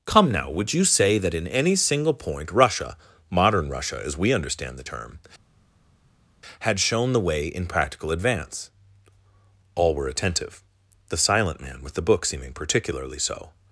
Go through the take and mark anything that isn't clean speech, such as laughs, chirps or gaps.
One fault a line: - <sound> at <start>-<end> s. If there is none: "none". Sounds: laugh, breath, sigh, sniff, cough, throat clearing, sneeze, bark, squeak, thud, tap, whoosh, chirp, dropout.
none